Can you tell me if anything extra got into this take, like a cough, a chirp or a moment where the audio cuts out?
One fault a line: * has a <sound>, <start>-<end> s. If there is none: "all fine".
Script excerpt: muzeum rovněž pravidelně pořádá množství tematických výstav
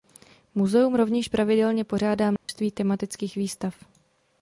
* has a dropout, 2.4-2.5 s